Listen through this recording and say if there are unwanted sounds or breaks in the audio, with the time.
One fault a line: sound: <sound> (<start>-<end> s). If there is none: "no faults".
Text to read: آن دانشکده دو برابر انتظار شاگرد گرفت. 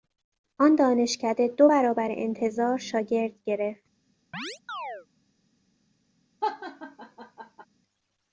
sound: chirp (4.3-5.1 s)
sound: laugh (6.4-7.7 s)